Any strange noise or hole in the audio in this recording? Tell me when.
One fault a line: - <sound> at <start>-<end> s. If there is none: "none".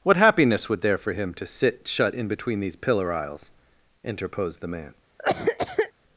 - cough at 5.2-5.9 s